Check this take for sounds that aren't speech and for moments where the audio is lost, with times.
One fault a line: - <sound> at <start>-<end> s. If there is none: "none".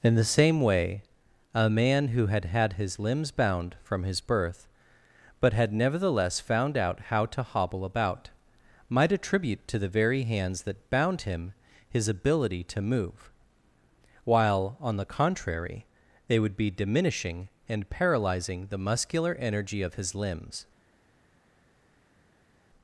none